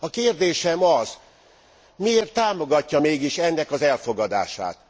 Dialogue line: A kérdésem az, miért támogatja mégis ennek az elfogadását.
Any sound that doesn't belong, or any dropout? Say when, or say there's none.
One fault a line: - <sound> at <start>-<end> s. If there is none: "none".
none